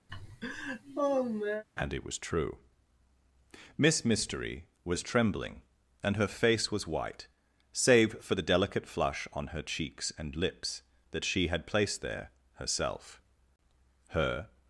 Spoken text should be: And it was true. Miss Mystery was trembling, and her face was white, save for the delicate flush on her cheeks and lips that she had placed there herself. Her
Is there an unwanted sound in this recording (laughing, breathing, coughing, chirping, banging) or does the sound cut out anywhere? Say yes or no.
yes